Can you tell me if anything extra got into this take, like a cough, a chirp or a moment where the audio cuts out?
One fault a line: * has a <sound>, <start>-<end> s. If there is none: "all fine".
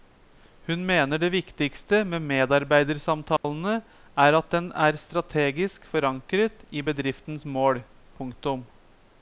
* has a dropout, 3.4-3.4 s